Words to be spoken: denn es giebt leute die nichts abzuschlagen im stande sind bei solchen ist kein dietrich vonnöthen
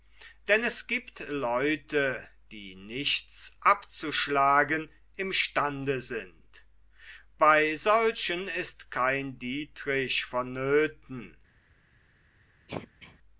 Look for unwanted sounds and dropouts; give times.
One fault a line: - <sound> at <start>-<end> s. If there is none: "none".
- throat clearing at 12.7-13.2 s